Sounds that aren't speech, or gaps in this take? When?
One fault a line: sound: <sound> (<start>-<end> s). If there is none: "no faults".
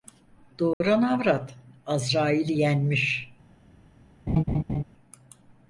sound: dropout (0.7-0.8 s)
sound: laugh (4.3-4.8 s)